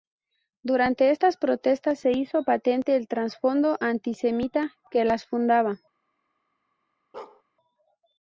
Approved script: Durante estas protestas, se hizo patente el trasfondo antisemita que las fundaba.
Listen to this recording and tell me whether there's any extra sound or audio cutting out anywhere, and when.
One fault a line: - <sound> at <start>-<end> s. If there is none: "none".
- bark at 7.1-7.4 s